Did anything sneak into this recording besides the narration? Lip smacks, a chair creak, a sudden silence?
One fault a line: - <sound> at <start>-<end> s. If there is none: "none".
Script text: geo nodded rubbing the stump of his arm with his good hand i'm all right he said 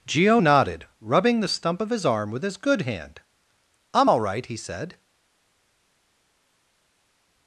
none